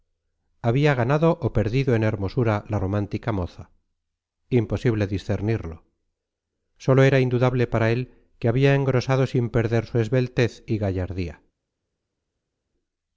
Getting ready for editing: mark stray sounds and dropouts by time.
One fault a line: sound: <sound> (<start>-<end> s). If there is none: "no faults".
no faults